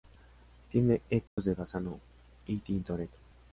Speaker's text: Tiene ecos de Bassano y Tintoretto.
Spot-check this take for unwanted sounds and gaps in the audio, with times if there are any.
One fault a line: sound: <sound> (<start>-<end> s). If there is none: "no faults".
sound: dropout (1.3-1.4 s)